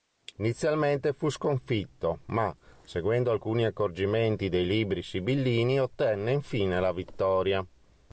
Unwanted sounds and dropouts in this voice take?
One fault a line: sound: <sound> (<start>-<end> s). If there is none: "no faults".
no faults